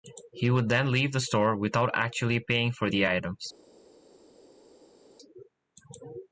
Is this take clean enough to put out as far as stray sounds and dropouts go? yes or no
yes